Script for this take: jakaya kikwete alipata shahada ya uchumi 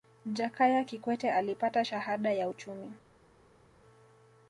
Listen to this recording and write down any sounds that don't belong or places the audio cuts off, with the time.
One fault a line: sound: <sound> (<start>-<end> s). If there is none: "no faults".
no faults